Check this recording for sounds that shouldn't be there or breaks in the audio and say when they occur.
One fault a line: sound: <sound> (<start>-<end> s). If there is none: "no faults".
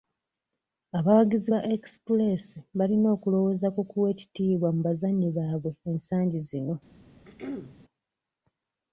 sound: throat clearing (7.2-7.8 s)